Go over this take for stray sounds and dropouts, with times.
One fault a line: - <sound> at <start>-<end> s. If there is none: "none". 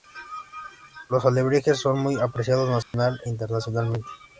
- dropout at 2.8-2.9 s